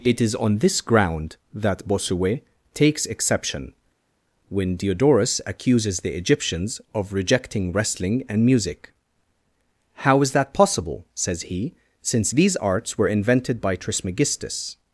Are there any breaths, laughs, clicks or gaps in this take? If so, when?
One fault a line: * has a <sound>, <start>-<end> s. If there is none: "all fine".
all fine